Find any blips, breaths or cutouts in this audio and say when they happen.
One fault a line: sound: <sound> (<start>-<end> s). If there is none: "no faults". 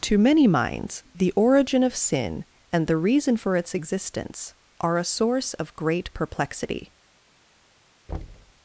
sound: thud (8.1-8.5 s)